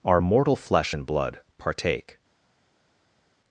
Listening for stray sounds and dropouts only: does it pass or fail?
pass